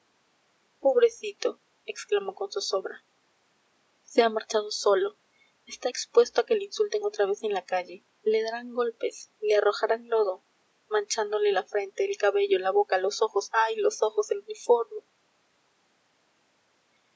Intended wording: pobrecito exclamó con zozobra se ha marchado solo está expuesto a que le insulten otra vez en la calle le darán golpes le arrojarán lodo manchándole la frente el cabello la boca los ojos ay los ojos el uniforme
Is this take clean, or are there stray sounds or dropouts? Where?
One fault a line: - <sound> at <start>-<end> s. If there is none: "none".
none